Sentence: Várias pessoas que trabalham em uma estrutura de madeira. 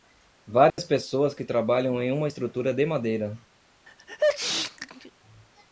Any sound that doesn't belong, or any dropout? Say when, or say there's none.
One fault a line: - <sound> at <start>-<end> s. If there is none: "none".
- dropout at 0.7-0.8 s
- sneeze at 3.9-5.1 s